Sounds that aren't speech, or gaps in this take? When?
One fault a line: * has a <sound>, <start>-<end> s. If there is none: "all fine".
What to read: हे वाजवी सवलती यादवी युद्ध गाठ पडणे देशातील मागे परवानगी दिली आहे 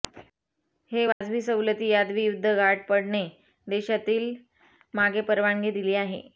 * has a dropout, 1.1-1.2 s